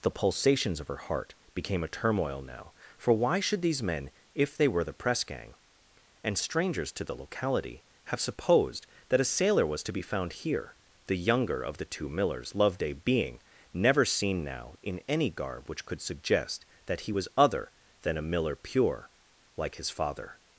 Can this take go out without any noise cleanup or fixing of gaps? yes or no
yes